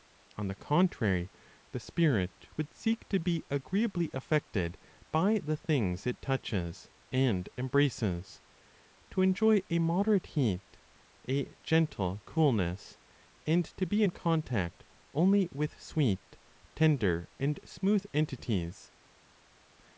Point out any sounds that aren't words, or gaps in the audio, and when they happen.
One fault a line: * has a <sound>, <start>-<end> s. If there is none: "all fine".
all fine